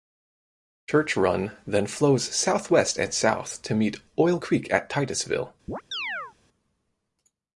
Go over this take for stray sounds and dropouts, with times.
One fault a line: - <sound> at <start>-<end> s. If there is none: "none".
- chirp at 5.7-6.3 s